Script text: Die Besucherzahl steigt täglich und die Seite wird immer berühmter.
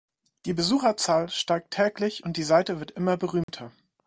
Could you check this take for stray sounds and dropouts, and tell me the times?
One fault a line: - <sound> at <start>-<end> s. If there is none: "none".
- dropout at 3.4-3.5 s